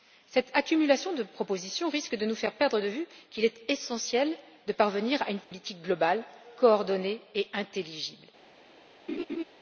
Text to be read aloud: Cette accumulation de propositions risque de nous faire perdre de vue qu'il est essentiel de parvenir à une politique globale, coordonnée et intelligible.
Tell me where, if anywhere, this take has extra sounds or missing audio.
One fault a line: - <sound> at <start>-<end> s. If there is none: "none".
- dropout at 5.4-5.5 s
- laugh at 9.1-9.4 s